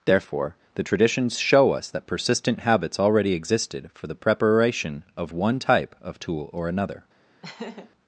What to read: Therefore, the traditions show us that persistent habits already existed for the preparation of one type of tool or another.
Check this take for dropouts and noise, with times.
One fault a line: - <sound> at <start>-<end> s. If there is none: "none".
- laugh at 7.4-7.9 s